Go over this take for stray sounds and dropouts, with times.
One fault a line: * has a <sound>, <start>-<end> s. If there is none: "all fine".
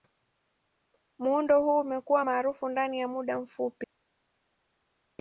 all fine